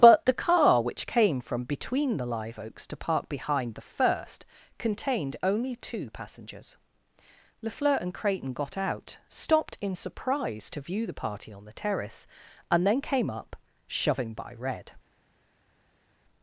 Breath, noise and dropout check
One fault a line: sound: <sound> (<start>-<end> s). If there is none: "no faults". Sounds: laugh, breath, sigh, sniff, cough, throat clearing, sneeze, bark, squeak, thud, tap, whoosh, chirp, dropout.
no faults